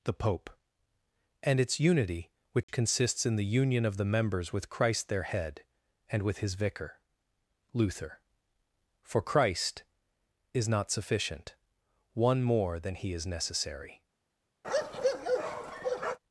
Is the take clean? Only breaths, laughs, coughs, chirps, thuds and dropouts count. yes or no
no